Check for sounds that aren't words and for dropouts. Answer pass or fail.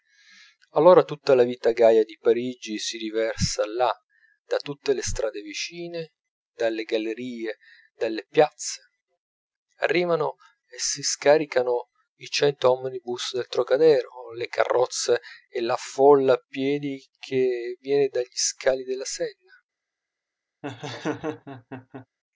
fail